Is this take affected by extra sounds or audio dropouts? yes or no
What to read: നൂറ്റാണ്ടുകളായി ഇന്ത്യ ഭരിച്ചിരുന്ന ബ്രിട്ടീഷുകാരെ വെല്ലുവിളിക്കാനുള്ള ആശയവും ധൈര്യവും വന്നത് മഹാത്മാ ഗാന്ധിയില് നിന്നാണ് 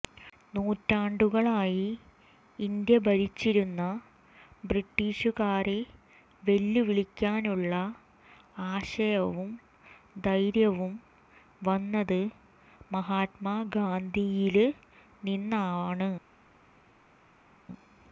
no